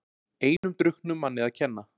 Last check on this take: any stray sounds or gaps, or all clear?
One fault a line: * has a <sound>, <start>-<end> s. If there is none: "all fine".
* has a dropout, 0.6-0.6 s